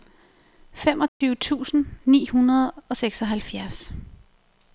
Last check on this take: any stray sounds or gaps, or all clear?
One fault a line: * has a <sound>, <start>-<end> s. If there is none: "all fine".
* has a dropout, 1.1-1.2 s